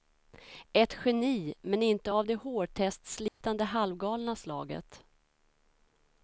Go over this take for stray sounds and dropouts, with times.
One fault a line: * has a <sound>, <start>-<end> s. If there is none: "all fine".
* has a dropout, 3.3-3.4 s